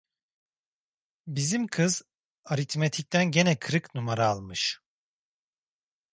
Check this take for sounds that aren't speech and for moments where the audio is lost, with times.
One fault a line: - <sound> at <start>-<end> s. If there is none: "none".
none